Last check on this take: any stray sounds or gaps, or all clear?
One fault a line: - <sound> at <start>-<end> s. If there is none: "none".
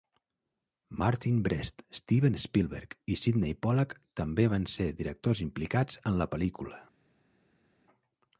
none